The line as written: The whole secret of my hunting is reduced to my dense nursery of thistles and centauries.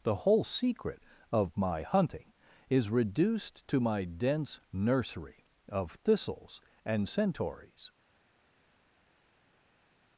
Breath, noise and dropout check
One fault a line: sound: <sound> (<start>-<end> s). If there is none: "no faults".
no faults